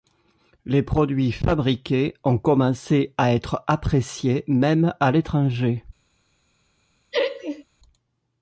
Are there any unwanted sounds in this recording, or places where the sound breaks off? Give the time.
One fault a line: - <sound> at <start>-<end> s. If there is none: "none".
- laugh at 7.1-7.6 s